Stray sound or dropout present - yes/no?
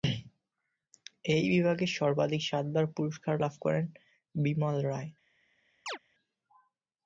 yes